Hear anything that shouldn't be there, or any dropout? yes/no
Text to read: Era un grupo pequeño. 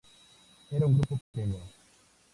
yes